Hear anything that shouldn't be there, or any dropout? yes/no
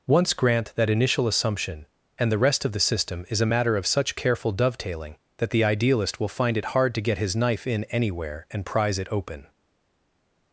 no